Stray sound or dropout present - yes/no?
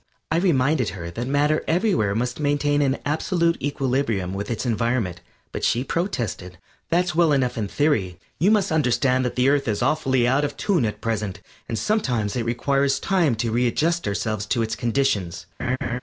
yes